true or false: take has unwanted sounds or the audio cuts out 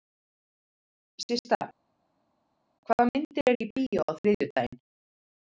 false